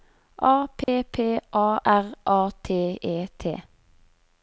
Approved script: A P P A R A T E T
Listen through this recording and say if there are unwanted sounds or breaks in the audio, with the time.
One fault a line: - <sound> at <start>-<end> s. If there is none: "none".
- dropout at 0.8-0.9 s